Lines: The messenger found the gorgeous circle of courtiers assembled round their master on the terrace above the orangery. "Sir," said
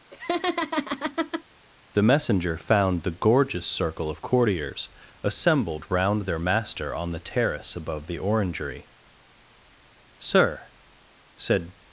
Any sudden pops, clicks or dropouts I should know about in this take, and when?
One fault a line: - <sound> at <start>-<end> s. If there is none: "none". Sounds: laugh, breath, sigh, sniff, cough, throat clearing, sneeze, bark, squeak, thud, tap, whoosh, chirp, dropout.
- laugh at 0.1-1.4 s